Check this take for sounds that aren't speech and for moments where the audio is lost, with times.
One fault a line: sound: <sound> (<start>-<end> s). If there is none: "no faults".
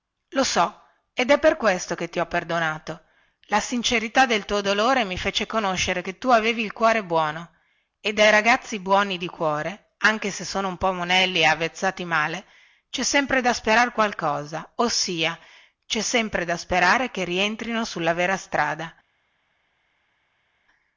no faults